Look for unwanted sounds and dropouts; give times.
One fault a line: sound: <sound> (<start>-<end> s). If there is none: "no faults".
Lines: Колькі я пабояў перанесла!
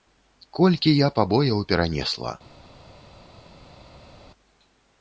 no faults